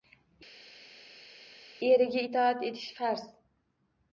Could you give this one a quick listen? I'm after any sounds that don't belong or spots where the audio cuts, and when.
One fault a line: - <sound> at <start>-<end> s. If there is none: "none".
none